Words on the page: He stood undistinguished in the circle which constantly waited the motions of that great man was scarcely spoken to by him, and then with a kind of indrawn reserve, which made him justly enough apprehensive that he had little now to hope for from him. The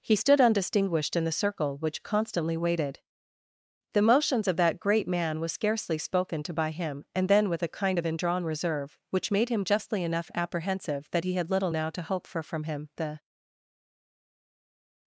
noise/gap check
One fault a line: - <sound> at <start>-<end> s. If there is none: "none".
none